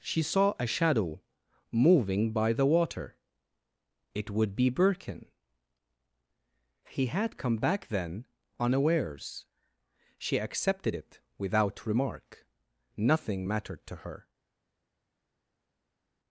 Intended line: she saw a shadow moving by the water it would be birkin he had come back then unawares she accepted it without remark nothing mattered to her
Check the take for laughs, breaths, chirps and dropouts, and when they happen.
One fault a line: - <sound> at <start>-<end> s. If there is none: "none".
none